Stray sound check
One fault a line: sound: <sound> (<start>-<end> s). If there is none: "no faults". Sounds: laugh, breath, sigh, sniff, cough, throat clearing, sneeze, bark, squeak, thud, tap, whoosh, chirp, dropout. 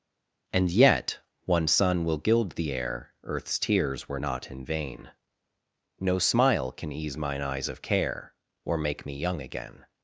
no faults